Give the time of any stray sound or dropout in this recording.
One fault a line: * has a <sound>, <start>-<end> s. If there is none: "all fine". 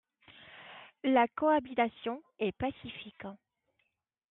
all fine